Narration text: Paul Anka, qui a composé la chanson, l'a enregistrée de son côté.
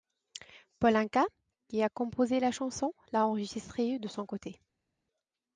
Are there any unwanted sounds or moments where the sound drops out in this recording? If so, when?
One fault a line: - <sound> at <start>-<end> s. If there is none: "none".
none